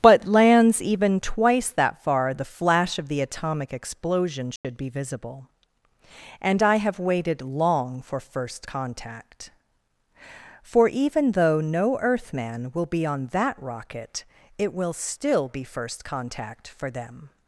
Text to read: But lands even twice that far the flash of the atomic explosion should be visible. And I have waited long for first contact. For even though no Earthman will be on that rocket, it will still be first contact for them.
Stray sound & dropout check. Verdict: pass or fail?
fail